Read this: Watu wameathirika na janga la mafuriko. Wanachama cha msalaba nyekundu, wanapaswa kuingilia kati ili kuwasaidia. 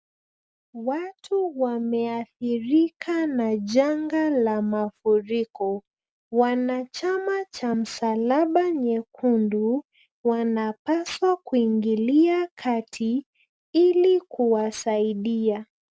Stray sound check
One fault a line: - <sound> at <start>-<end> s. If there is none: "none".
none